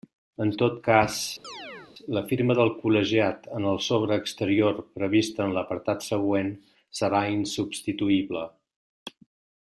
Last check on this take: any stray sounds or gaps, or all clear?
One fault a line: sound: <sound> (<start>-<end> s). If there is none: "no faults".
sound: chirp (1.4-1.9 s)